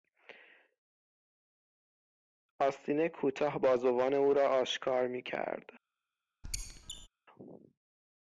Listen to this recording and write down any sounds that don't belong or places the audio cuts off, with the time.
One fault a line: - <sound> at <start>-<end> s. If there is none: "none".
- squeak at 6.4-7.1 s